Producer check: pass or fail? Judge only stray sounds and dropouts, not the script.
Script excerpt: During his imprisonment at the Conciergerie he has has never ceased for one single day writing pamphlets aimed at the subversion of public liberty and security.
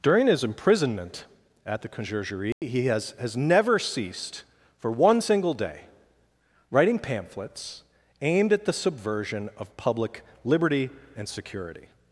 fail